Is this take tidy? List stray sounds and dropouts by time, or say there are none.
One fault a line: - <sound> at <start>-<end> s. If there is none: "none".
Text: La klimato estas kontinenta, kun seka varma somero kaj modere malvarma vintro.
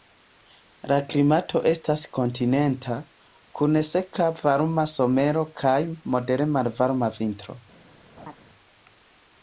- laugh at 8.2-8.4 s